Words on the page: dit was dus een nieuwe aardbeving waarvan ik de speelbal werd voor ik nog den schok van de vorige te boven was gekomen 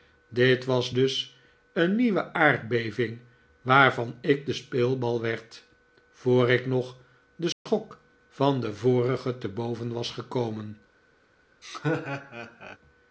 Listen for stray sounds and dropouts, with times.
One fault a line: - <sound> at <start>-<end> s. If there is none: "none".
- dropout at 7.5-7.7 s
- laugh at 11.6-12.8 s